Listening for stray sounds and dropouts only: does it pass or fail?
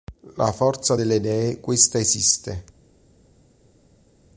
pass